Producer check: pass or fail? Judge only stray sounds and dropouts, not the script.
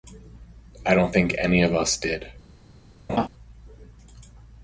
fail